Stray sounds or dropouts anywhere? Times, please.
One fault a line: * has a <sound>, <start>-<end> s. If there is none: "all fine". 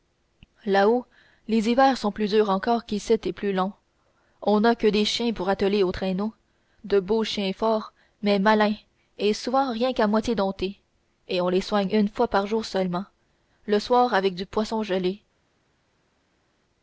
all fine